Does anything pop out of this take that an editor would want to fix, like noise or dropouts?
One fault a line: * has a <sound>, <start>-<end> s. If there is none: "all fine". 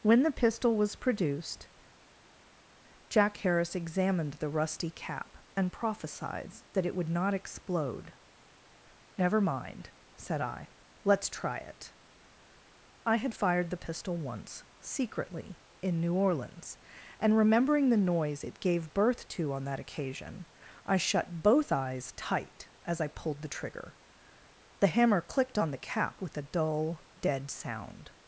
all fine